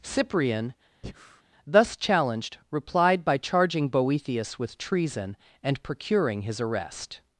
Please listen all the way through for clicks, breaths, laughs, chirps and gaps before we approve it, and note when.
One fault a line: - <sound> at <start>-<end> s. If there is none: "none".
- breath at 1.0-1.4 s